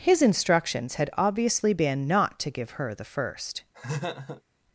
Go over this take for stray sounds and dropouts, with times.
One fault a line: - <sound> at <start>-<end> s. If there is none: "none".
- laugh at 3.7-4.4 s